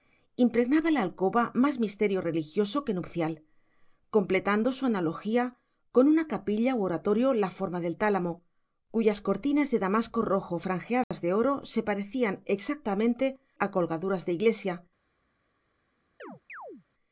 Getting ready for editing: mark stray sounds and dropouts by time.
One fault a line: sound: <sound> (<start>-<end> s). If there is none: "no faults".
sound: dropout (11.0-11.1 s)
sound: chirp (16.2-16.8 s)